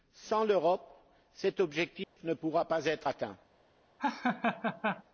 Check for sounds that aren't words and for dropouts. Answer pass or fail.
fail